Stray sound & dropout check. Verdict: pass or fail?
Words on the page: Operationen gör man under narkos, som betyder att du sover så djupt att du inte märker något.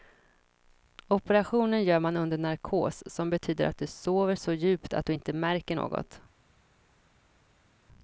pass